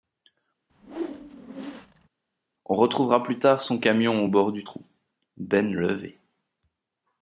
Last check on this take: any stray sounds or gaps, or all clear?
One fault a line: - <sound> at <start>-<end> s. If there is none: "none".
- whoosh at 0.7-2.1 s